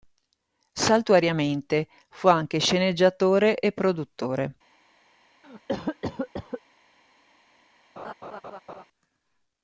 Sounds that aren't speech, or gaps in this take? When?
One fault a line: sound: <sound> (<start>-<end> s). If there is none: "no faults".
sound: cough (5.4-6.6 s)
sound: laugh (8.0-8.8 s)